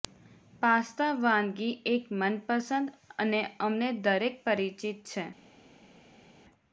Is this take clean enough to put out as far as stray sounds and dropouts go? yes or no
yes